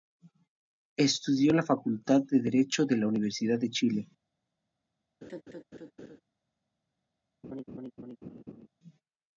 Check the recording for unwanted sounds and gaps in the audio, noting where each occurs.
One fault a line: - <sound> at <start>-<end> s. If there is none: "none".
- laugh at 5.2-6.2 s
- laugh at 7.4-8.7 s